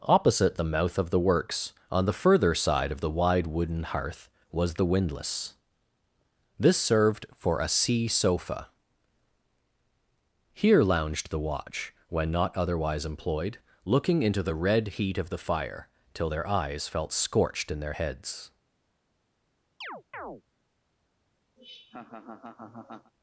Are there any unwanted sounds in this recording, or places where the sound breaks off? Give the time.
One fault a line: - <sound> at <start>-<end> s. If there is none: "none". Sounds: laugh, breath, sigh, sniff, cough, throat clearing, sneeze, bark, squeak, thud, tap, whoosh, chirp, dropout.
- chirp at 19.8-20.4 s
- laugh at 21.6-23.1 s